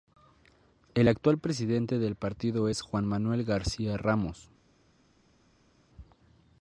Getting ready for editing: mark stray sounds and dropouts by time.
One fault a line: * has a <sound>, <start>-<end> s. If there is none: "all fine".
all fine